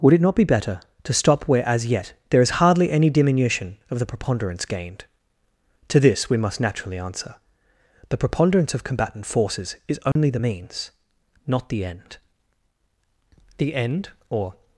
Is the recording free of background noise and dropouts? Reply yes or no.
no